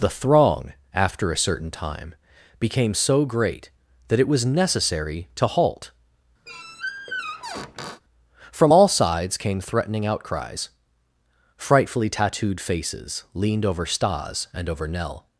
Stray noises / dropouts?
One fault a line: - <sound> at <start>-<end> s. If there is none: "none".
- squeak at 6.5-8.0 s